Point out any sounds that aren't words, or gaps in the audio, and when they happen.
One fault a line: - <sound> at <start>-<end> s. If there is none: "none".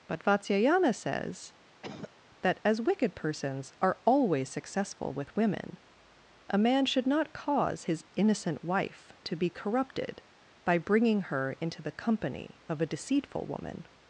- cough at 1.8-2.1 s